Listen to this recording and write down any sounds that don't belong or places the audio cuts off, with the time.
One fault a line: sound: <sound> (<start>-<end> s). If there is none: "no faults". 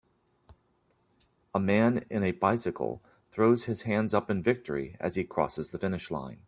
no faults